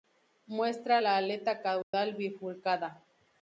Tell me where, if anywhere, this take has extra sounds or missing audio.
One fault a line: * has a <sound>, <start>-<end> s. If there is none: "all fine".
* has a dropout, 1.8-1.9 s